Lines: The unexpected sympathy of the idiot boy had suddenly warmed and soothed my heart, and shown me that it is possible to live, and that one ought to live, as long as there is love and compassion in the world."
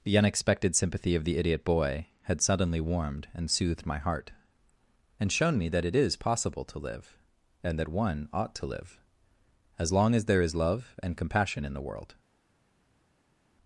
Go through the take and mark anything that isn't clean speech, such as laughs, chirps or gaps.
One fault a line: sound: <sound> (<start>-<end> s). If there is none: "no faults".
no faults